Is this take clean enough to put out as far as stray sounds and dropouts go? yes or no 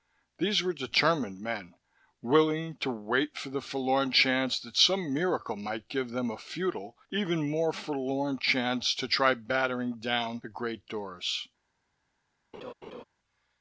no